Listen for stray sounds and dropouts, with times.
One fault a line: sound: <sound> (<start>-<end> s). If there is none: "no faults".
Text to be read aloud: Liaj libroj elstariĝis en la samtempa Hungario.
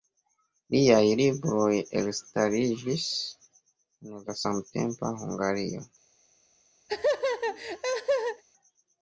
sound: laugh (6.9-8.4 s)